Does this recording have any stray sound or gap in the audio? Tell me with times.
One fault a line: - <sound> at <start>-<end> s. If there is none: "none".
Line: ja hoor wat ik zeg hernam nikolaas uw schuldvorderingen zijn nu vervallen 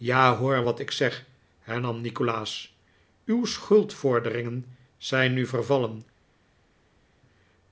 none